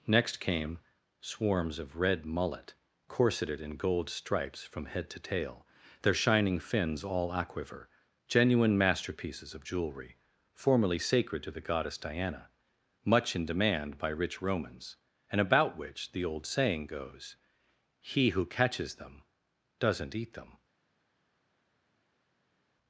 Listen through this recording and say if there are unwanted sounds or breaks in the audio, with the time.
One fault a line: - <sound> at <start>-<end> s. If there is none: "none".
none